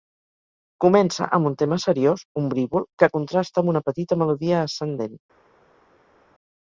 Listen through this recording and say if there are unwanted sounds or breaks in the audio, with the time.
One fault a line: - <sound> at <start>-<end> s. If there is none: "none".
none